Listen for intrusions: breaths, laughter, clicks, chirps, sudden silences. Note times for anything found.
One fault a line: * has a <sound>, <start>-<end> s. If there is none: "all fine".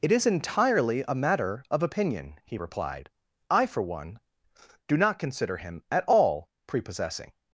all fine